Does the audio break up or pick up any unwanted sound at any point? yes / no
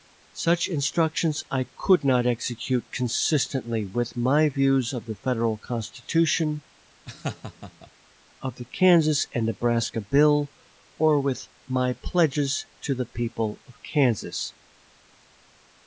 yes